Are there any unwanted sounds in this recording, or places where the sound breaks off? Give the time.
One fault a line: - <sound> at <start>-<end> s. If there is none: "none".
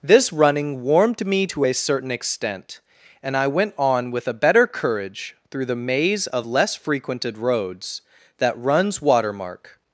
none